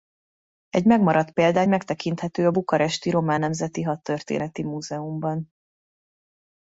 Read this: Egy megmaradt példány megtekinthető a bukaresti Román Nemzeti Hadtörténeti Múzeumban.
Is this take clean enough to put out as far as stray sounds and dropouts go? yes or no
yes